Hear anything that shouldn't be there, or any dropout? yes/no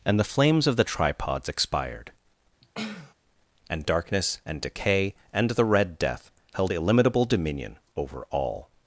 yes